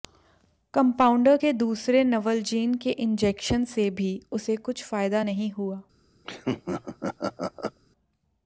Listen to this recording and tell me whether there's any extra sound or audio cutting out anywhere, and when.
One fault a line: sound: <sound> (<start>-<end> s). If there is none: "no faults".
sound: laugh (6.2-7.8 s)